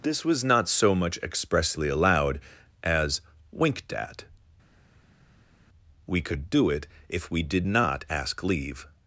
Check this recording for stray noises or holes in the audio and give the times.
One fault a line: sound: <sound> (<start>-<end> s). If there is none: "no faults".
no faults